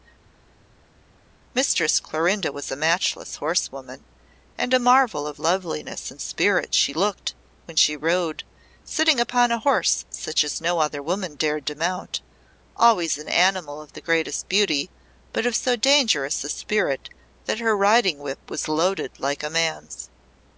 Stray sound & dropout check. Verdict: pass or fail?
pass